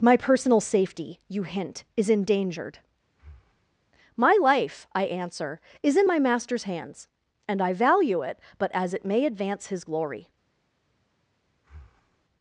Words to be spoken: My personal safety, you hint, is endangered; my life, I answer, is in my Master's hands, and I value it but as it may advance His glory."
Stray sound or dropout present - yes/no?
yes